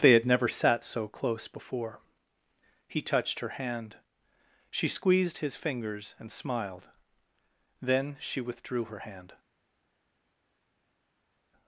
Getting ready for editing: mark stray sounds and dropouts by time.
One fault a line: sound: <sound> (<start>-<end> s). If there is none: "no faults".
no faults